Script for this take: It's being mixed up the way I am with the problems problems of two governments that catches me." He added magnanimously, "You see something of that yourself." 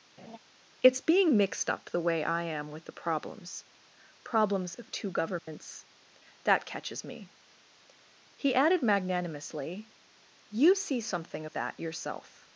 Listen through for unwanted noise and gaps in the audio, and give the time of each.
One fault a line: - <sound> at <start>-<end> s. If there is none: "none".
- laugh at 0.2-0.4 s
- dropout at 5.4-5.5 s